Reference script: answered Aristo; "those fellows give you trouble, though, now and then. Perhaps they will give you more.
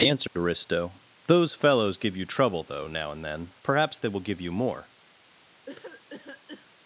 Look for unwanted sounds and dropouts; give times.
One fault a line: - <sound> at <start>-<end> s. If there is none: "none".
- dropout at 0.3-0.4 s
- cough at 5.7-6.7 s